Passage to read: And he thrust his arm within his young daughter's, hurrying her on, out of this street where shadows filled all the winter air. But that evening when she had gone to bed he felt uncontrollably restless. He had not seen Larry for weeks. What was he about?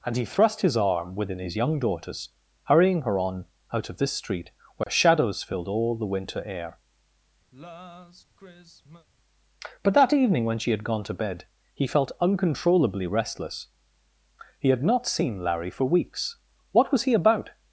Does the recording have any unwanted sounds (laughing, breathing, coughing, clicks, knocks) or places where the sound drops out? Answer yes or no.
yes